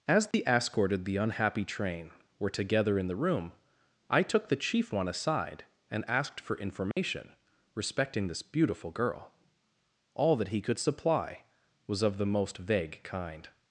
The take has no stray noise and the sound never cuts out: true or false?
false